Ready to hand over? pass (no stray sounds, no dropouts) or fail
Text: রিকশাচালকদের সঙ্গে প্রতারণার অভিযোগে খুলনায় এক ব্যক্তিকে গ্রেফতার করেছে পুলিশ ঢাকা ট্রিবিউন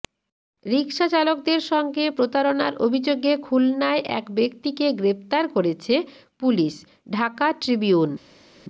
pass